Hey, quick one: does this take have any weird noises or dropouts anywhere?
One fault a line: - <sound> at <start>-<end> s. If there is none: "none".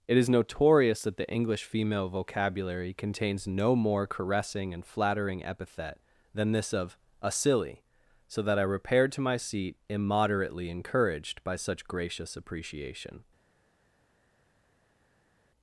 none